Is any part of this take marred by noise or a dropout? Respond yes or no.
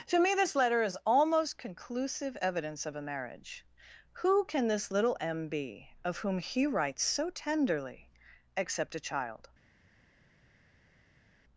no